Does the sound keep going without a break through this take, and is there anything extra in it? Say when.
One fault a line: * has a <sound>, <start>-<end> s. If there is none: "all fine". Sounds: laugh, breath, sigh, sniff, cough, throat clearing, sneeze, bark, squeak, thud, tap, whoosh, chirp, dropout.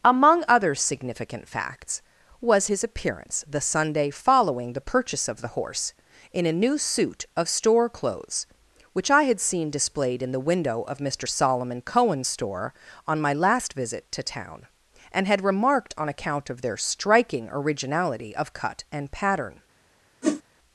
* has a whoosh, 20.2-20.4 s